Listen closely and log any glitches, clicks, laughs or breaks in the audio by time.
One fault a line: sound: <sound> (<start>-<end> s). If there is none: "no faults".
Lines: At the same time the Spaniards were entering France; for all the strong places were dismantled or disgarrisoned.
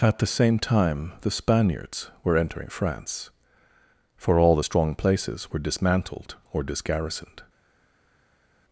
no faults